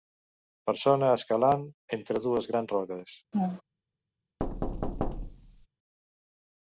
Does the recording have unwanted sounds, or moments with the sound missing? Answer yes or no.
yes